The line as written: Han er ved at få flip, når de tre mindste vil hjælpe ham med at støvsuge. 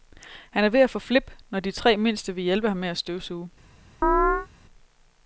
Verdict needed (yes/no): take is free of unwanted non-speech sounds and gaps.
no